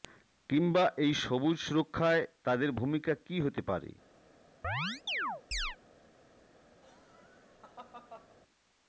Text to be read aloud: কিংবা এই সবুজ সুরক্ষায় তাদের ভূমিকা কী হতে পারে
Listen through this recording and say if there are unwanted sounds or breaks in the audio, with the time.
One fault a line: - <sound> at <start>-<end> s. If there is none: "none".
- chirp at 4.6-5.8 s
- laugh at 6.8-8.4 s